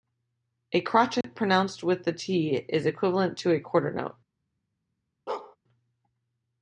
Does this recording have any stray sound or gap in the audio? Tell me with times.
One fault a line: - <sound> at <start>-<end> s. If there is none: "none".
- dropout at 1.2-1.2 s
- bark at 5.3-5.6 s